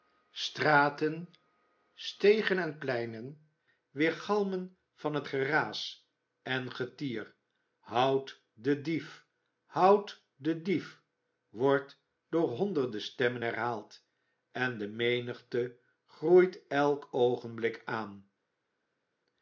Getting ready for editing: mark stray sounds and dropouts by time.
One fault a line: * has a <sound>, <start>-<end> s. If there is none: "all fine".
all fine